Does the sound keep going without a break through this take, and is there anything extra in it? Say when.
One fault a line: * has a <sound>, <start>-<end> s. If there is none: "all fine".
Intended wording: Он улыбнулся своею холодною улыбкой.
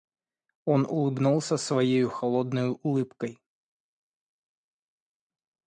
all fine